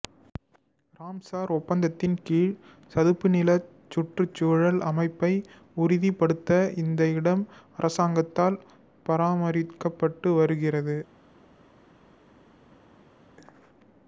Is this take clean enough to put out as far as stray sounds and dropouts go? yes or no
yes